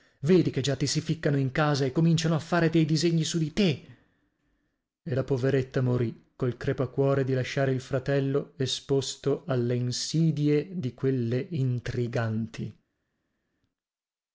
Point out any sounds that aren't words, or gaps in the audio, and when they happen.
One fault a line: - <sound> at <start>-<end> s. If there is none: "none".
none